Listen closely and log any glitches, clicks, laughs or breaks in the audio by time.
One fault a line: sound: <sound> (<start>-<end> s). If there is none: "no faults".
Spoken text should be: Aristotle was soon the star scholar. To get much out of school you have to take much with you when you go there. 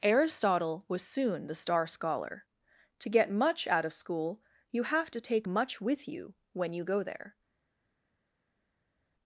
no faults